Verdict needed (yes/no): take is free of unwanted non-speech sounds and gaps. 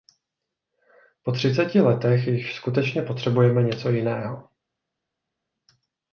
yes